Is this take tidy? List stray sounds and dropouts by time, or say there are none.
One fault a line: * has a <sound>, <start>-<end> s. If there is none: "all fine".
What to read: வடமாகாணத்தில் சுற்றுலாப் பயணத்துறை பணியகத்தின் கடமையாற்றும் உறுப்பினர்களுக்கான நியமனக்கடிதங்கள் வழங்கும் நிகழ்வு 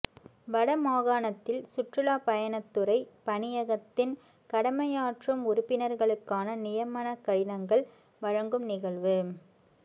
all fine